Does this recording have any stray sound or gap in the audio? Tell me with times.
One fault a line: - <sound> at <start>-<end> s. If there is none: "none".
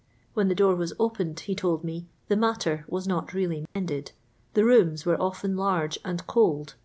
- dropout at 3.7-3.8 s